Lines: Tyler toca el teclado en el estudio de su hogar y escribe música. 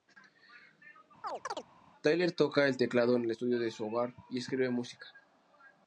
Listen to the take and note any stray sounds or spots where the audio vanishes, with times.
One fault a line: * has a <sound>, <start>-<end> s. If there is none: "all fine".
* has a chirp, 1.2-1.6 s